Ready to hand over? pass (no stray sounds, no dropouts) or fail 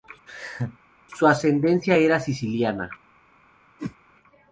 fail